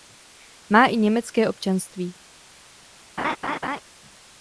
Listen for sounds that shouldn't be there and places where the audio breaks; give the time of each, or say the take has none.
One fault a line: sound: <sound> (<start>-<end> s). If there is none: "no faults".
sound: laugh (3.2-3.8 s)